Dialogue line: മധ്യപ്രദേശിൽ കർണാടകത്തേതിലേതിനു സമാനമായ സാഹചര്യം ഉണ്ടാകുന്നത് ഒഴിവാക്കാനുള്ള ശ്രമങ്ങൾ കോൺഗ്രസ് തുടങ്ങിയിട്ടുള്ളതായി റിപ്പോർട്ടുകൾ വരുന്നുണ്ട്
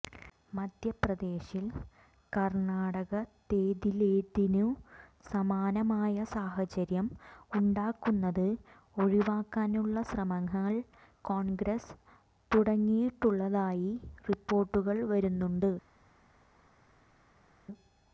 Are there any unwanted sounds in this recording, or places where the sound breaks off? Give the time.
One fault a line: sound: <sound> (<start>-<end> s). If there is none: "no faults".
no faults